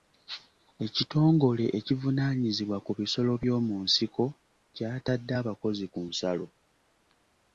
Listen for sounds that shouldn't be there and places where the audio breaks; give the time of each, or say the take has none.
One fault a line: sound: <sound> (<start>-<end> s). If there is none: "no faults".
no faults